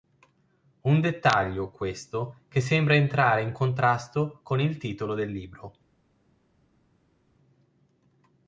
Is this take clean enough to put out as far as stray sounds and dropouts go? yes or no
yes